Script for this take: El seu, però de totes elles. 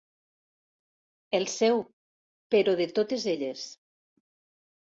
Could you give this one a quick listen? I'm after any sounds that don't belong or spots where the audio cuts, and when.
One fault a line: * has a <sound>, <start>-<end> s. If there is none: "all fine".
all fine